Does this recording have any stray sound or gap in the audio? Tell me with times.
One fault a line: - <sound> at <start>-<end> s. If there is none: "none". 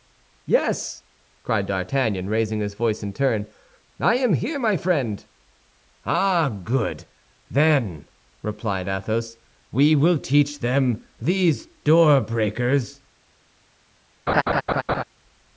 - laugh at 14.3-15.0 s